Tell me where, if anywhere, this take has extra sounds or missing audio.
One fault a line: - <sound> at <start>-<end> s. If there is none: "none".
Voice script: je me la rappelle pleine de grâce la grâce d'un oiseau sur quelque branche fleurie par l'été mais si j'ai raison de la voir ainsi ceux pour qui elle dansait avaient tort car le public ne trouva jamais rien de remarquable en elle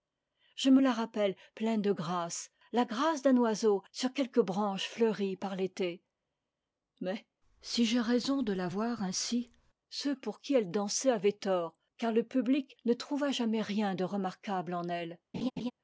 - laugh at 15.3-15.7 s